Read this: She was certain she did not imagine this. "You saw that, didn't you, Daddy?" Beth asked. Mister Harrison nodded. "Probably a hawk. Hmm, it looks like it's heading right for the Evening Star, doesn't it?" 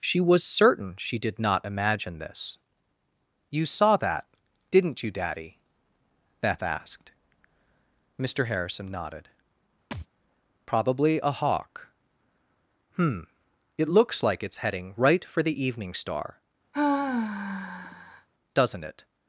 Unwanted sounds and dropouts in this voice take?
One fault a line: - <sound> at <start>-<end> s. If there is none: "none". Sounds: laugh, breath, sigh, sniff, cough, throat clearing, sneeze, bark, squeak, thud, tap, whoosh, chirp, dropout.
- thud at 9.9-10.1 s
- sigh at 16.7-18.3 s